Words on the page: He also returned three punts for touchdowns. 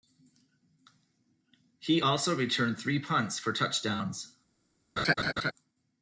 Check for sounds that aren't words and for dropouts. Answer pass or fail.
fail